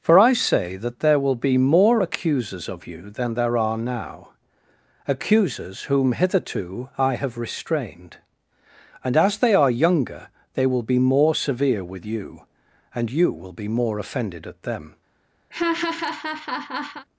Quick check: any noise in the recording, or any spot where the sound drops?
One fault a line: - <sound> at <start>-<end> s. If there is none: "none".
- laugh at 15.5-17.1 s